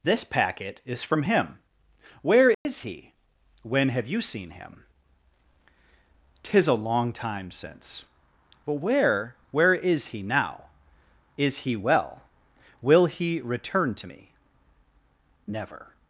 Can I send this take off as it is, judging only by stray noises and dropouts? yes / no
no